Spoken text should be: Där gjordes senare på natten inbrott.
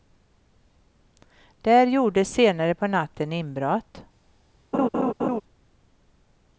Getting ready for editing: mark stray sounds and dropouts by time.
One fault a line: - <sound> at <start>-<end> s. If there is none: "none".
- laugh at 4.7-5.4 s